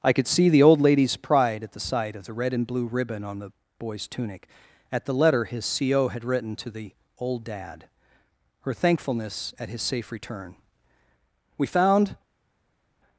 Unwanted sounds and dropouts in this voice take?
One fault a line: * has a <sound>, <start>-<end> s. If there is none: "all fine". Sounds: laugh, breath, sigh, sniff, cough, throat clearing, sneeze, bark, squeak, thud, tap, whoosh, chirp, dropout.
all fine